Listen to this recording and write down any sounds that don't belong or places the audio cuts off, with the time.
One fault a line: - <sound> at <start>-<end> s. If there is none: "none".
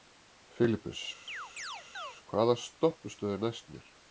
- chirp at 1.3-2.2 s